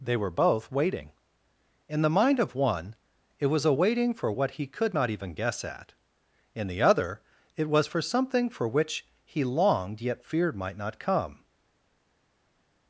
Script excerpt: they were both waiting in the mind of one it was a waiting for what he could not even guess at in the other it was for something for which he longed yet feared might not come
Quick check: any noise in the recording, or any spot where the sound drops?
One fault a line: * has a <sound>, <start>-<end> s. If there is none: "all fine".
all fine